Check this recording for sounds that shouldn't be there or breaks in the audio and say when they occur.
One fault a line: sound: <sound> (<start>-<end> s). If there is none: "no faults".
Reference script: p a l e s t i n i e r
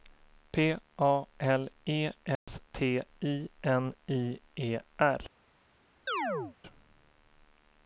sound: dropout (2.4-2.5 s)
sound: chirp (6.1-6.6 s)